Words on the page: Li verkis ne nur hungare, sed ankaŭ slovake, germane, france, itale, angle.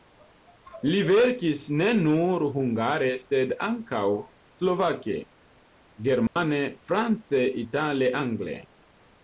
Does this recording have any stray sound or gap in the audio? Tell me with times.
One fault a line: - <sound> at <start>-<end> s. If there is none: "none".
- dropout at 6.3-6.4 s